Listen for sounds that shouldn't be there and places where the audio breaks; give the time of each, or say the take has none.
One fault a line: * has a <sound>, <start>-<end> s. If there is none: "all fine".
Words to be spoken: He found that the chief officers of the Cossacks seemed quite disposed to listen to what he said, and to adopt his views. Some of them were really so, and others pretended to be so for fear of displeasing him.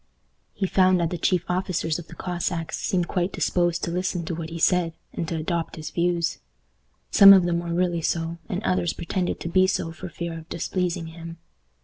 all fine